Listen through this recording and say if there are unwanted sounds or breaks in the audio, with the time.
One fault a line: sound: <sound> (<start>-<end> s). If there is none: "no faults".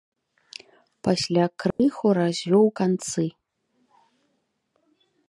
sound: dropout (1.7-1.8 s)